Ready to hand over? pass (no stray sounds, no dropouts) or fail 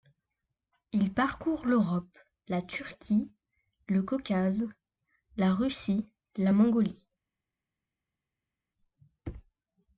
pass